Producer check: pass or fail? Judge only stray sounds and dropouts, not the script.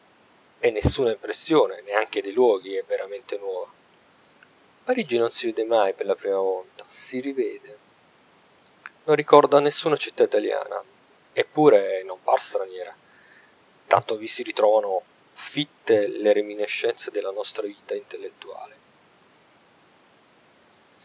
pass